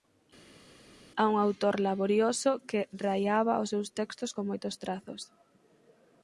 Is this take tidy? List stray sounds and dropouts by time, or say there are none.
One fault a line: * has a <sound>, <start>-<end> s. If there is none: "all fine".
all fine